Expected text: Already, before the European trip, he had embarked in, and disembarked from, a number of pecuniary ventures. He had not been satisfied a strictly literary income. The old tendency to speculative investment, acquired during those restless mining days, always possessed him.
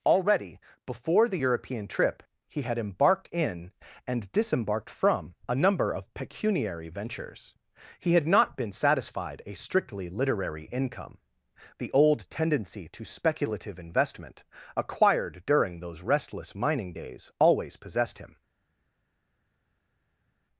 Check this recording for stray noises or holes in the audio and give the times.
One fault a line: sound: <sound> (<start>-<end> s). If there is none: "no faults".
no faults